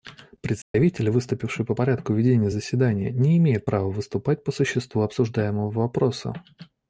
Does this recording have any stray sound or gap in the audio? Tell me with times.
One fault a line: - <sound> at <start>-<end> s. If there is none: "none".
- dropout at 0.6-0.7 s